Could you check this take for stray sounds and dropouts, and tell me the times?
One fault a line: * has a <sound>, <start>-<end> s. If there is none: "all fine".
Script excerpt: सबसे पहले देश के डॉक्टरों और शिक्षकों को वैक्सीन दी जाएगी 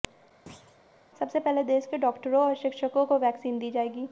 * has a thud, 0.5-0.8 s